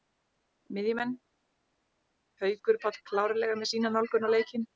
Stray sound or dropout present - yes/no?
no